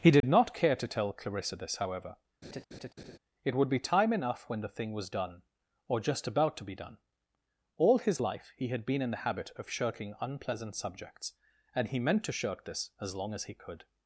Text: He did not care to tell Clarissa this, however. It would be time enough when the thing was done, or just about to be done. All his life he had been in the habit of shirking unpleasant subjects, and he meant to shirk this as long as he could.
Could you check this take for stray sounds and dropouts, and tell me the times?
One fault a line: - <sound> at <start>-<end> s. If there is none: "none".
- dropout at 0.2-0.2 s
- laugh at 2.4-3.2 s